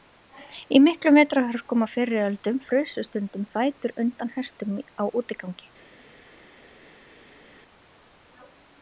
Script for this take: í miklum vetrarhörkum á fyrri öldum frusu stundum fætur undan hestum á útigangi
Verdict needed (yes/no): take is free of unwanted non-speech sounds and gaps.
yes